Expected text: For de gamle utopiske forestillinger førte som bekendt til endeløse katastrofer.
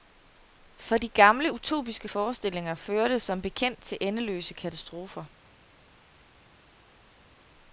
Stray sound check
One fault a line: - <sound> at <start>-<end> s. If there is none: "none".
none